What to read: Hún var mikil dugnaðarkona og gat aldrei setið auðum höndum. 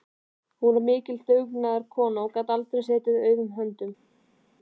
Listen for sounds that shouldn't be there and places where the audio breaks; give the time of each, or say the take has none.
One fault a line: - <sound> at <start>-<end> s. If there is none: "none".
none